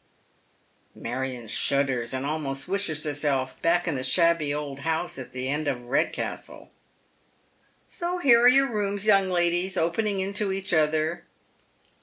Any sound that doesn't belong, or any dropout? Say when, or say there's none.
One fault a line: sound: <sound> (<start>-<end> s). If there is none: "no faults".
no faults